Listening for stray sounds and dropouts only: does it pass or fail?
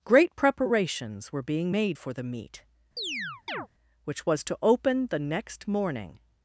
fail